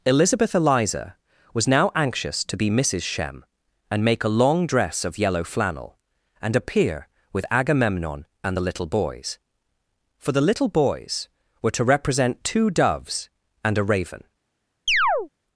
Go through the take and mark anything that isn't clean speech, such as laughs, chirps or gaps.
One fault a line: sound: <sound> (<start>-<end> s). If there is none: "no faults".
sound: chirp (14.9-15.3 s)